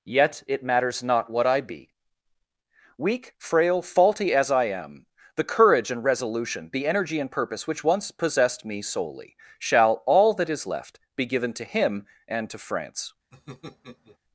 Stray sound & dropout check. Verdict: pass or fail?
fail